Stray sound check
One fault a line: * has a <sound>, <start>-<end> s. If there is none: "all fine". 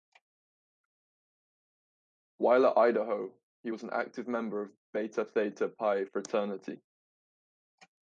all fine